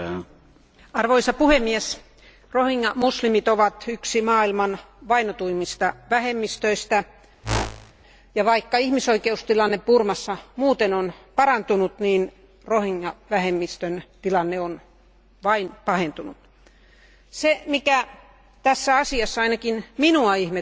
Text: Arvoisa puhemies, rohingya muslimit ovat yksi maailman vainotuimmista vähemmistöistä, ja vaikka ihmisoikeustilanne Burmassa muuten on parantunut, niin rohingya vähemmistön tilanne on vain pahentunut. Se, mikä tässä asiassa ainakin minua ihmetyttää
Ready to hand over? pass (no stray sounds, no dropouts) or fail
fail